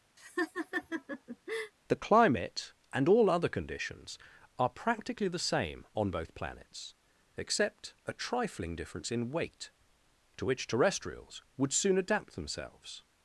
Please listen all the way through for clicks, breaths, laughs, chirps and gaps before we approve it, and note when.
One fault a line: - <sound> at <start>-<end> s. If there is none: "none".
- laugh at 0.2-1.7 s